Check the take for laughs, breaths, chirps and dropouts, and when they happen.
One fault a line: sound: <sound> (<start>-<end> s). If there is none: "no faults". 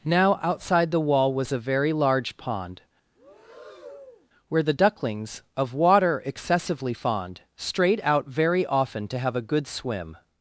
sound: breath (3.2-4.3 s)